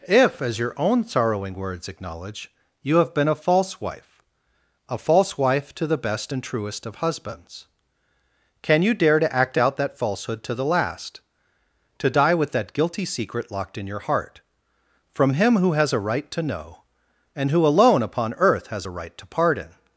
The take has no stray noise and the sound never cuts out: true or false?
true